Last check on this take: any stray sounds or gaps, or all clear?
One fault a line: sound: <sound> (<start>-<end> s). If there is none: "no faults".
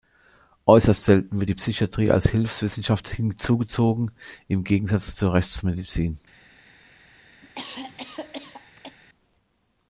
sound: cough (7.4-9.0 s)